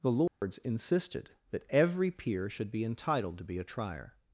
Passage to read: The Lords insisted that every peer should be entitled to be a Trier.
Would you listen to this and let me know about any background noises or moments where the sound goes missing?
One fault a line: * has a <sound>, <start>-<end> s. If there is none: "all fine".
* has a dropout, 0.3-0.4 s